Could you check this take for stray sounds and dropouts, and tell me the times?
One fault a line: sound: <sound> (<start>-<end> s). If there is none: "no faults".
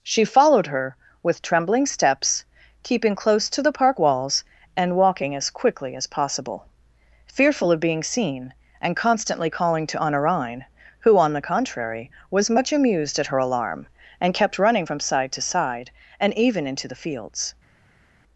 no faults